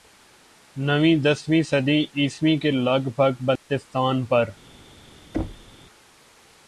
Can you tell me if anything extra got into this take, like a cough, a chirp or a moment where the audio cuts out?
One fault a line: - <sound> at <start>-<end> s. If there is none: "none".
- dropout at 3.6-3.7 s
- thud at 5.3-5.7 s